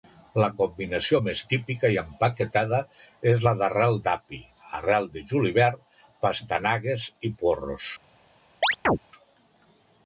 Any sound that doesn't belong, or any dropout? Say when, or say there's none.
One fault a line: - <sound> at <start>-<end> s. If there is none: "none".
- chirp at 8.6-9.0 s